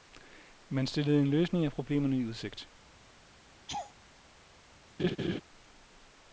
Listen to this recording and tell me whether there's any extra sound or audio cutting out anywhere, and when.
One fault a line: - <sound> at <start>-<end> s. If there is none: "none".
- laugh at 3.7-3.9 s
- laugh at 5.0-5.4 s